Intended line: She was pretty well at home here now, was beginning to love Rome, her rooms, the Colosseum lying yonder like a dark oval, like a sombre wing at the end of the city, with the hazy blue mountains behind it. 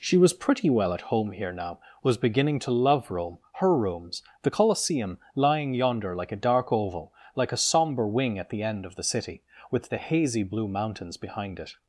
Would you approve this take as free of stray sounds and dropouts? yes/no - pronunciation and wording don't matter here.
yes